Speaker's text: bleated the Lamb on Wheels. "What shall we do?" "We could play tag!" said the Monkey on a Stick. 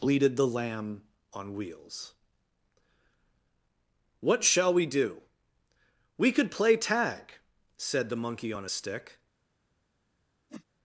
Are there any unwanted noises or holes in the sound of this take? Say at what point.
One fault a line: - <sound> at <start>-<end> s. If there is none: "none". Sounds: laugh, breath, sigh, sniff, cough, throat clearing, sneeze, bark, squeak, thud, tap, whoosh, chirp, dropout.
- whoosh at 10.5-10.6 s